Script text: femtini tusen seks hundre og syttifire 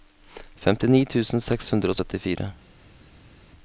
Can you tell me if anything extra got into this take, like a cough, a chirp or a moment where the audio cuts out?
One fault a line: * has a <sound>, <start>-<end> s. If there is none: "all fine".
all fine